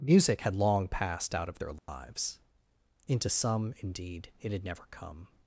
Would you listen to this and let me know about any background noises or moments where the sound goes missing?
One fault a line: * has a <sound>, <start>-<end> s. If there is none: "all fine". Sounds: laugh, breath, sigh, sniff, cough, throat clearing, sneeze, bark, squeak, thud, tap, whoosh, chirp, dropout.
* has a dropout, 1.8-1.9 s